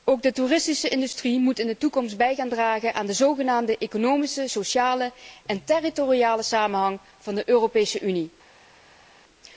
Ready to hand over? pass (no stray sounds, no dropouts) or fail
pass